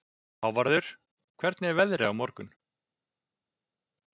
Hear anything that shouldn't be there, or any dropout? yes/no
no